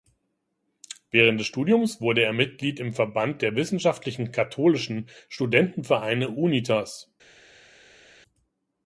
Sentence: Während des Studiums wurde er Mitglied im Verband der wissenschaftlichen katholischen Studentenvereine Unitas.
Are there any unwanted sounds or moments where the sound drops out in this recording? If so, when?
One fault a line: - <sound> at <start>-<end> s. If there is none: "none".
none